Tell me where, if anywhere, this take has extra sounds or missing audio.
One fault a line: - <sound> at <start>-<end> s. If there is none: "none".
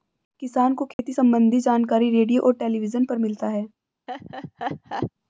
- dropout at 0.9-1.0 s
- laugh at 4.1-5.1 s